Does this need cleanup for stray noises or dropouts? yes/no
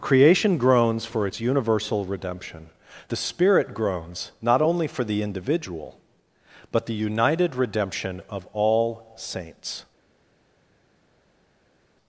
no